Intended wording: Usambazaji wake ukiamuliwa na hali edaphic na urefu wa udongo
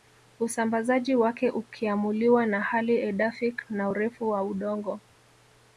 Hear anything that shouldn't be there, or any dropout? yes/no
no